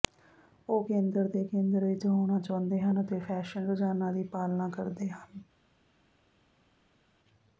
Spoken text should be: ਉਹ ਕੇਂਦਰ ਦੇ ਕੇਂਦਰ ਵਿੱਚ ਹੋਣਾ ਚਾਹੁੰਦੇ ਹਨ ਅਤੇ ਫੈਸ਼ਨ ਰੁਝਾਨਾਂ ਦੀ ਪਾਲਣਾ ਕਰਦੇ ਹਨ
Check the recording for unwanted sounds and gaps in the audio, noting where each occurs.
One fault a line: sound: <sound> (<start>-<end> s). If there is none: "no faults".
no faults